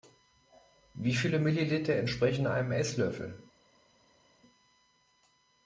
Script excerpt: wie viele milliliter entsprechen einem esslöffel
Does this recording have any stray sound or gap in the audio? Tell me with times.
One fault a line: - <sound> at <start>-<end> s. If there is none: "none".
none